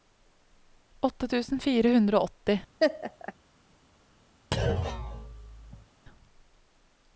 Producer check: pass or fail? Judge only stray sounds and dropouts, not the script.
fail